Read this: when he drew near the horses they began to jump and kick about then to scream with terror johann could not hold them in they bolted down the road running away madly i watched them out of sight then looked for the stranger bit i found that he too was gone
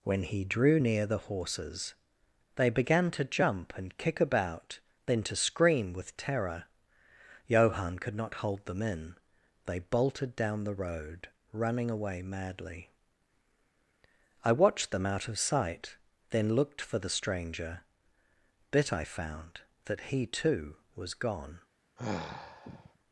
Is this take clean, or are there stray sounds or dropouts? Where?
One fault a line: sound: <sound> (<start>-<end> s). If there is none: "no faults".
sound: sigh (22.0-23.0 s)